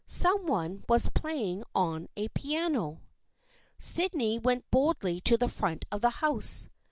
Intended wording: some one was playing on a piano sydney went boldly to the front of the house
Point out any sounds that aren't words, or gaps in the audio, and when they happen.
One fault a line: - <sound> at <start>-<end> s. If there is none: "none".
none